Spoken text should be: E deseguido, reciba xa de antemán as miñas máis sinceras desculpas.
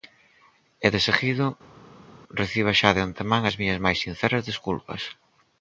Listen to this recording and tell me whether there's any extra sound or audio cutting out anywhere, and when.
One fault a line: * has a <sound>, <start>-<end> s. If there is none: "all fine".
all fine